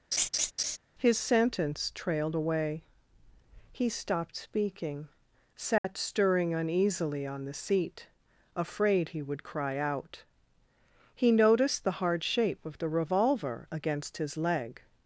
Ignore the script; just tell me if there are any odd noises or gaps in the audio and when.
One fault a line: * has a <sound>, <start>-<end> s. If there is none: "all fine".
* has a laugh, 0.1-0.8 s
* has a dropout, 5.8-5.8 s